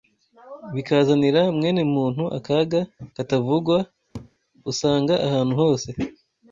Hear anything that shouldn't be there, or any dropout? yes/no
yes